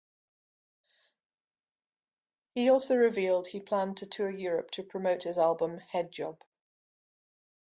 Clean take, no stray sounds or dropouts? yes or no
yes